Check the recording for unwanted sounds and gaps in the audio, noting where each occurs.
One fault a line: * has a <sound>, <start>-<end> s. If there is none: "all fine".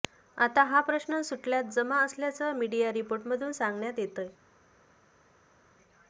all fine